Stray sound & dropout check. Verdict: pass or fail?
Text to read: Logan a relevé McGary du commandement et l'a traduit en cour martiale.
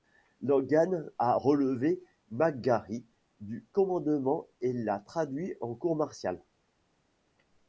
pass